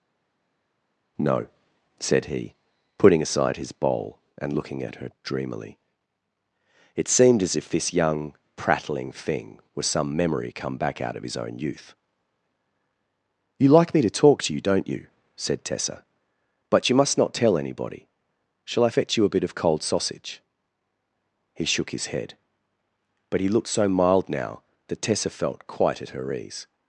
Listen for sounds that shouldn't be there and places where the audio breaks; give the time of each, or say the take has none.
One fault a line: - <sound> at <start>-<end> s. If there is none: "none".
none